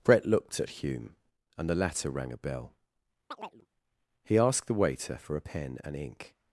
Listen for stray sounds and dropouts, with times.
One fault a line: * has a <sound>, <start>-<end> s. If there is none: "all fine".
* has a chirp, 3.3-3.7 s